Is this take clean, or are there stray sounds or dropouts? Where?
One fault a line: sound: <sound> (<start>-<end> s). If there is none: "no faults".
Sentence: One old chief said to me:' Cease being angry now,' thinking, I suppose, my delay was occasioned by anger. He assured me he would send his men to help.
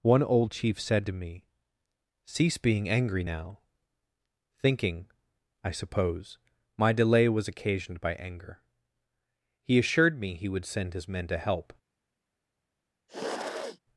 sound: sniff (13.1-13.8 s)